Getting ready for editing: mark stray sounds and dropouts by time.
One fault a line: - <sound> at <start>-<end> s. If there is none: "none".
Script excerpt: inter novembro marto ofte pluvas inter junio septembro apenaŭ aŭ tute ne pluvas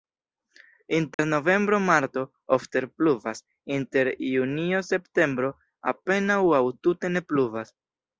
- dropout at 1.1-1.2 s